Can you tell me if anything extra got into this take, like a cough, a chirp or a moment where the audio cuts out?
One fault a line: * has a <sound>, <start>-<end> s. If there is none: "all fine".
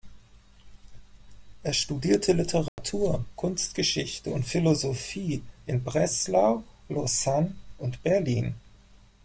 * has a dropout, 2.7-2.8 s